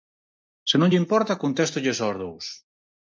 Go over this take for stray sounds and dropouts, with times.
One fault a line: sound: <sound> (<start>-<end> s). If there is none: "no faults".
no faults